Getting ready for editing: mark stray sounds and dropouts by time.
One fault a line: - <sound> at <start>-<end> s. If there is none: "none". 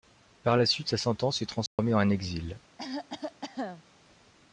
- dropout at 1.7-1.8 s
- cough at 2.8-3.9 s